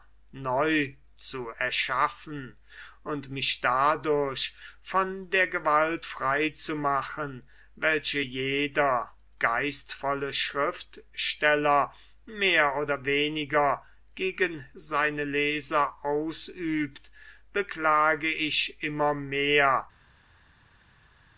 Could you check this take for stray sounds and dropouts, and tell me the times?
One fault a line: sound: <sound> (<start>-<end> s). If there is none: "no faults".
no faults